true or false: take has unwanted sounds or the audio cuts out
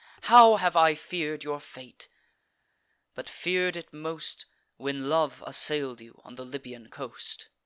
false